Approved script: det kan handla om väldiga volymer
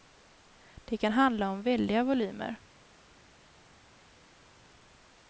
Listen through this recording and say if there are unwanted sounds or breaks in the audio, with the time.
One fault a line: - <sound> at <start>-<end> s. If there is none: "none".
none